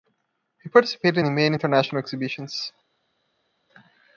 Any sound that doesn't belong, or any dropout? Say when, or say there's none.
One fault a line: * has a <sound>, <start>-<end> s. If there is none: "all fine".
all fine